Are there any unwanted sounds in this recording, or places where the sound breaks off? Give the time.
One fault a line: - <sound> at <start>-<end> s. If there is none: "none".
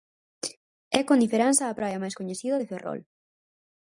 none